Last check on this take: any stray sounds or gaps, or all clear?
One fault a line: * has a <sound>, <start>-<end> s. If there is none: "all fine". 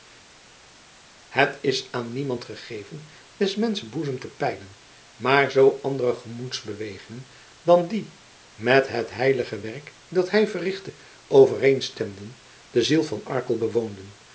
all fine